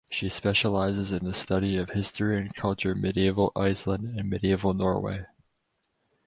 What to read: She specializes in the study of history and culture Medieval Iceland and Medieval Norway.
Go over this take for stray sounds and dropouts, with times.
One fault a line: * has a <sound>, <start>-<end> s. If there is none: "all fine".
all fine